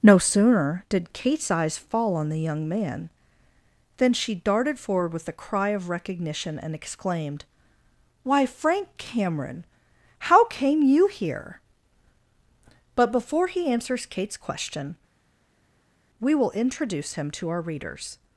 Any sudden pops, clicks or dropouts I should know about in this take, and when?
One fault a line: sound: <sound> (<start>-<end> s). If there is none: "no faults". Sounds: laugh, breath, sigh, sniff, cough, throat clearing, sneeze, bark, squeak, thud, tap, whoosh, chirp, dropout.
no faults